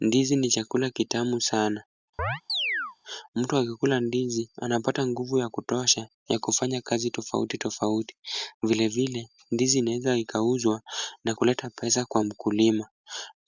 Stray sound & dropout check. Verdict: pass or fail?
fail